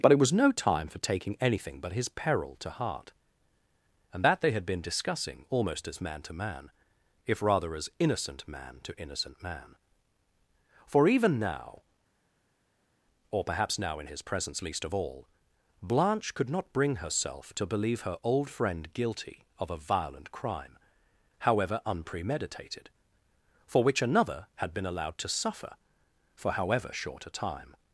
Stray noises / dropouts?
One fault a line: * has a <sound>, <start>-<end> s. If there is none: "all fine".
all fine